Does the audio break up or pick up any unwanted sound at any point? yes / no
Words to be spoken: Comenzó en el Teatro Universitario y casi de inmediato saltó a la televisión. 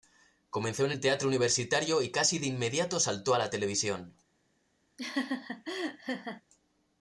yes